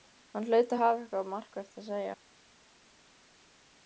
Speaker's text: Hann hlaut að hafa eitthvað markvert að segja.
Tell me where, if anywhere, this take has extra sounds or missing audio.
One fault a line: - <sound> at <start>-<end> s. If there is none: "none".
none